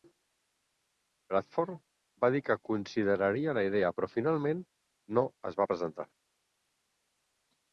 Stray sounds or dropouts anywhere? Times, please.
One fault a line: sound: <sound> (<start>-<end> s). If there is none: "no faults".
no faults